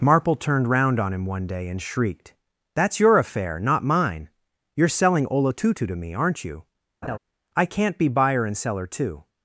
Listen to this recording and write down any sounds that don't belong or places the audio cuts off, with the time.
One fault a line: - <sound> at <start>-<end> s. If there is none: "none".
- laugh at 7.0-7.2 s